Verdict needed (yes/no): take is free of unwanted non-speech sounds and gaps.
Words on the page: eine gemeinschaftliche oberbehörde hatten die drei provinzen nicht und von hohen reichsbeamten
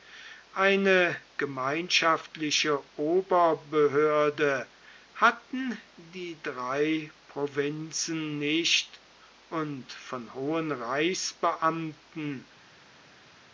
yes